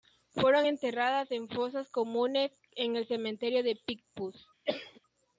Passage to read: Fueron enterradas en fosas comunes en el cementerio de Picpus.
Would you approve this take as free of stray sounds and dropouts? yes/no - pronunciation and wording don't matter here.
no